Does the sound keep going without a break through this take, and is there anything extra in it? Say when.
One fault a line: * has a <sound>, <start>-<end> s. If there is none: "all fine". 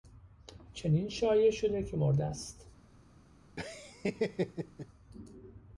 * has a laugh, 3.6-4.9 s